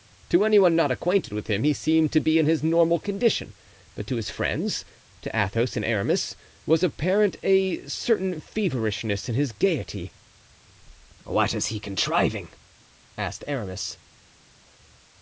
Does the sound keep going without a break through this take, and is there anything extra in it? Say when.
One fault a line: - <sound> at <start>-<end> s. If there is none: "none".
none